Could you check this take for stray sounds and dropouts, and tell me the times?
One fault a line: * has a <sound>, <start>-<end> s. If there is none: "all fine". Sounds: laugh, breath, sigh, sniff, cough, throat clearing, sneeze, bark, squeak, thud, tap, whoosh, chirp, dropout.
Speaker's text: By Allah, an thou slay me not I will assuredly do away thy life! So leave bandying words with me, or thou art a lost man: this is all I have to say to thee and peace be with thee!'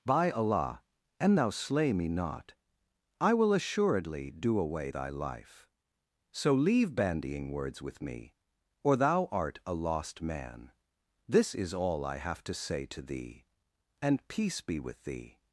all fine